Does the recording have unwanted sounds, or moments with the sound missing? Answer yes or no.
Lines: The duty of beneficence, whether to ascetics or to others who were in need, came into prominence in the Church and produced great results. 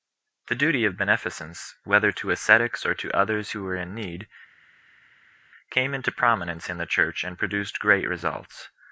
no